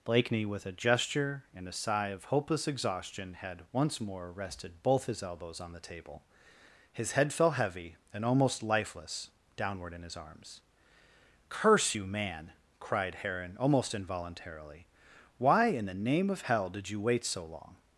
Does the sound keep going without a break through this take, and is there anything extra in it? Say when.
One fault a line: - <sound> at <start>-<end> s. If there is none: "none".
none